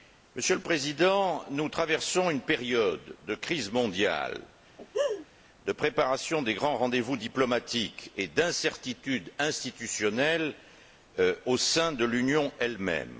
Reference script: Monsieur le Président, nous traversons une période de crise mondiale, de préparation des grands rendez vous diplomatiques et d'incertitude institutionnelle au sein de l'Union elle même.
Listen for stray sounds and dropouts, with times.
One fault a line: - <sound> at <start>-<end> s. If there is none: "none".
- laugh at 4.8-5.3 s